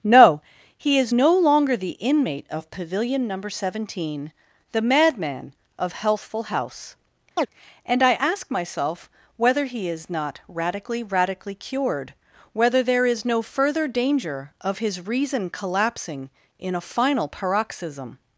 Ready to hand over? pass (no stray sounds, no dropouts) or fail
fail